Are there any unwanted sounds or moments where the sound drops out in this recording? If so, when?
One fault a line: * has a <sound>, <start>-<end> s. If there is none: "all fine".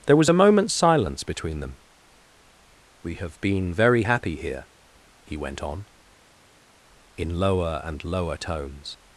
all fine